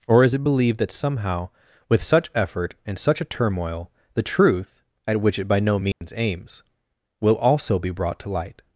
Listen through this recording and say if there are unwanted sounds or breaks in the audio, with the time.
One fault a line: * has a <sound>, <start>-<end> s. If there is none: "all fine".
* has a dropout, 5.9-6.0 s